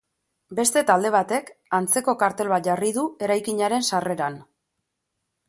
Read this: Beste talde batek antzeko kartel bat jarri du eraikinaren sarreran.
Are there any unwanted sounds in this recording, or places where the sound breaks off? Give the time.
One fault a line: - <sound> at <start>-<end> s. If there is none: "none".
none